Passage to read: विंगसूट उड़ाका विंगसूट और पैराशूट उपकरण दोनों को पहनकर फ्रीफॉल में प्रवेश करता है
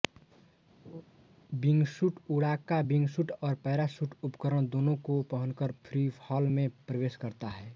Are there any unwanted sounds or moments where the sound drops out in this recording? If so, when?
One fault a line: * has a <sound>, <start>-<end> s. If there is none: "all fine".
* has a laugh, 0.9-1.0 s